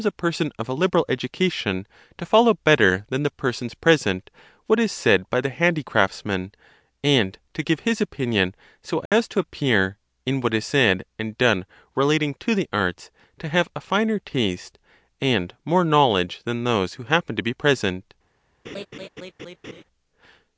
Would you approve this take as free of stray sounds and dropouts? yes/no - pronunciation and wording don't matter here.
no